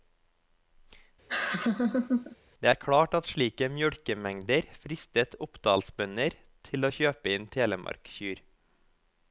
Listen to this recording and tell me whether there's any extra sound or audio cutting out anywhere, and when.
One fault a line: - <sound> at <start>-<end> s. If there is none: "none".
- laugh at 1.3-2.4 s